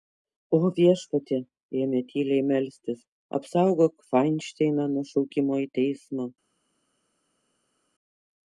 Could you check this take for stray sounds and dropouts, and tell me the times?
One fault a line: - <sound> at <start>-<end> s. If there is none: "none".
none